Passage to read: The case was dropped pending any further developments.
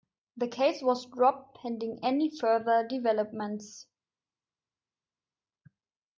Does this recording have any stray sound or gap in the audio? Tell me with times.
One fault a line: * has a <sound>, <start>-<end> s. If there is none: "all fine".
all fine